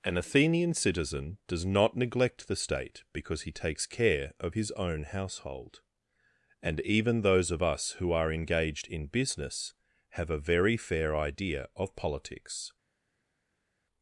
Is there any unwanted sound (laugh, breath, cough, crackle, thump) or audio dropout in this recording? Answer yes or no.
no